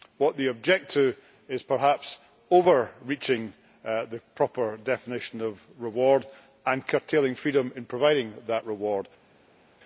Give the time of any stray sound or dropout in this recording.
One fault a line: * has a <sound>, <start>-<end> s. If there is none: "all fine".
all fine